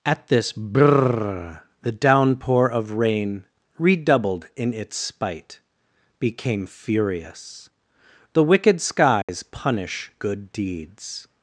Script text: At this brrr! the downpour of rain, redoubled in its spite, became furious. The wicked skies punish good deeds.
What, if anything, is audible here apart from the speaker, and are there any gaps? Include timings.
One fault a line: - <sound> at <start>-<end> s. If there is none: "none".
- dropout at 9.2-9.3 s